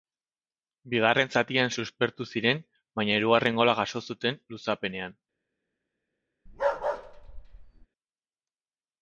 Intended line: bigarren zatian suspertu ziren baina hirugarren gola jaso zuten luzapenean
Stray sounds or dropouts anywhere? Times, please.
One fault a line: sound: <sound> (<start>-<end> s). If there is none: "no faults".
sound: bark (6.5-7.9 s)